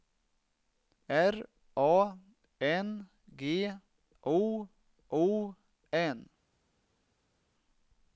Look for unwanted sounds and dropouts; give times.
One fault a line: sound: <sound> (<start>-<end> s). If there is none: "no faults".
no faults